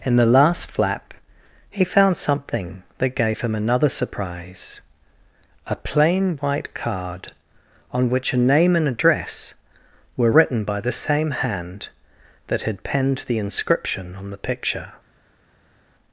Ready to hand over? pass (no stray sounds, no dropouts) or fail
pass